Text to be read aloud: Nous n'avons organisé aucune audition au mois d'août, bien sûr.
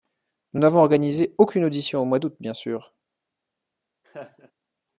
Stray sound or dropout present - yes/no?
yes